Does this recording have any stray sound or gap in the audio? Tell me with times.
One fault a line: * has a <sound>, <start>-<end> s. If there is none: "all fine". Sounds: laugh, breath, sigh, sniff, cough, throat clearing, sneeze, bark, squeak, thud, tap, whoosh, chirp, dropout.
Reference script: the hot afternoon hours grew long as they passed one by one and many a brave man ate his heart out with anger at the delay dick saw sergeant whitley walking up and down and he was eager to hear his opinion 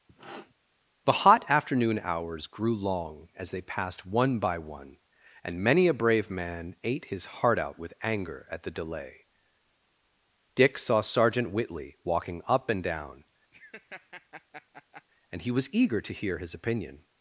* has a sniff, 0.1-0.5 s
* has a laugh, 13.5-15.0 s